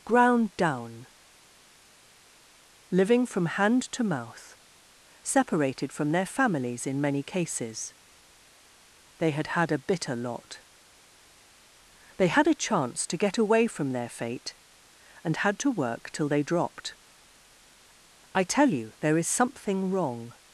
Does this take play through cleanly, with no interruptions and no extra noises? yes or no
yes